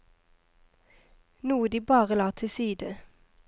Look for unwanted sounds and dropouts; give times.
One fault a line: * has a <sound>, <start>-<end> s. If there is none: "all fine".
all fine